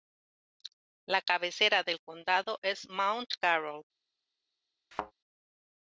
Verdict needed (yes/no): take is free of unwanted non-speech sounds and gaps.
no